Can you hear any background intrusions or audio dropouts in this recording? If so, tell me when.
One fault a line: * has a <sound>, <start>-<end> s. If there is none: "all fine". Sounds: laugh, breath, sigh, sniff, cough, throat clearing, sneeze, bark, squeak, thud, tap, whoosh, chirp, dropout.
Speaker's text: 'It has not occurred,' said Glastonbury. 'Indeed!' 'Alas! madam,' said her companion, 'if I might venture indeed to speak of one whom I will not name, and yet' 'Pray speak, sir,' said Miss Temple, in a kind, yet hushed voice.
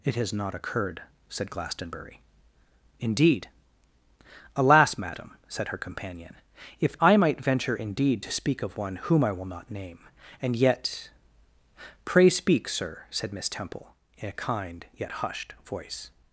all fine